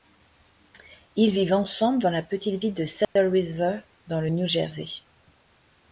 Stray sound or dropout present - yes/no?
yes